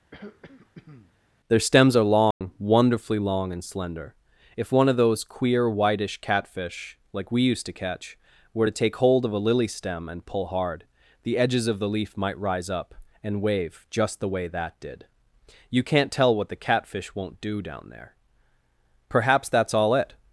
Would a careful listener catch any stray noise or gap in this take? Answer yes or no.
yes